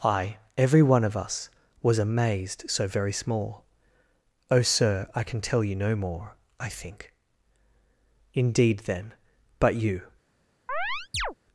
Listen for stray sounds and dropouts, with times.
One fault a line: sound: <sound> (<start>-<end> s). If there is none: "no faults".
sound: chirp (10.7-11.3 s)